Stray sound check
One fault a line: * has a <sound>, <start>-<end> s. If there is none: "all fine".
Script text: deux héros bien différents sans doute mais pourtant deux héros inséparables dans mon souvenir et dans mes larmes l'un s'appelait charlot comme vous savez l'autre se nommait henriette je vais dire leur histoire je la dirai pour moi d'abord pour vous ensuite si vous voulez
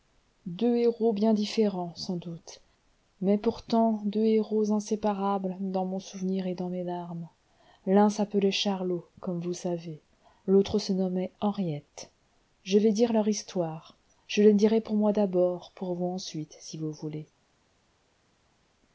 all fine